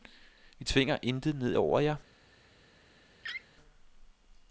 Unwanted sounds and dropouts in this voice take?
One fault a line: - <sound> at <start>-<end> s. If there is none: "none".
- laugh at 3.2-3.5 s